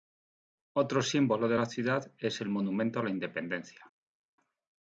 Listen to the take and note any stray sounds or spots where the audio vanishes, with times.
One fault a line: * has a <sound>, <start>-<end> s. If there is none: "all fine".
all fine